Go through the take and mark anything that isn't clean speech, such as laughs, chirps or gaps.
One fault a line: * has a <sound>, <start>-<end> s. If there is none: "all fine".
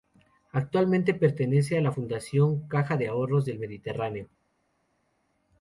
all fine